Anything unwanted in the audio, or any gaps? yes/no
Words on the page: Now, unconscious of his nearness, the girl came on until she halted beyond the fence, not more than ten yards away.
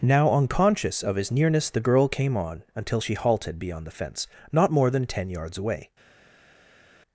no